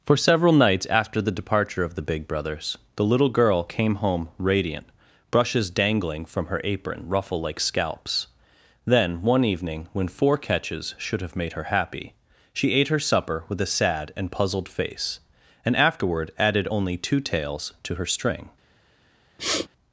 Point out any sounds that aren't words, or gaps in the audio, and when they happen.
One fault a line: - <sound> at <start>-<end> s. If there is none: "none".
- sniff at 19.4-19.7 s